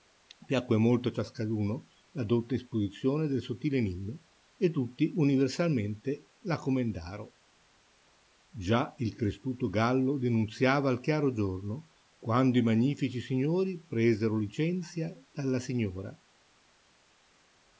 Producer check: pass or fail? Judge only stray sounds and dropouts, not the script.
pass